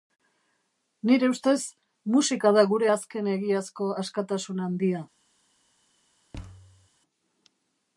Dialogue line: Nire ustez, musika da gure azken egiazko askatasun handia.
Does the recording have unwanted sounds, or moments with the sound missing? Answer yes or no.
yes